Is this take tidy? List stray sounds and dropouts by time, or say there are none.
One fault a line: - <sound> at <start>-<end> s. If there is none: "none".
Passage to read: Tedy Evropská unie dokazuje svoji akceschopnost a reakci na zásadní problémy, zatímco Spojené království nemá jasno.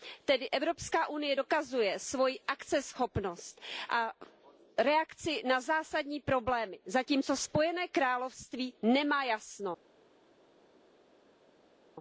none